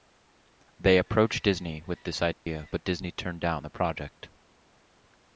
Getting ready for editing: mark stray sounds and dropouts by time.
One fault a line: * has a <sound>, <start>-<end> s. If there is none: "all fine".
* has a dropout, 2.3-2.5 s